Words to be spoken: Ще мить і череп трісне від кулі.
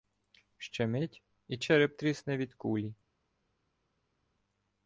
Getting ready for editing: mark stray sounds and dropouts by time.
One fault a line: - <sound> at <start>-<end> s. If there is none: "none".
none